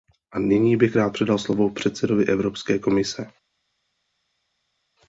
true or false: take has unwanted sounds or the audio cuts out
false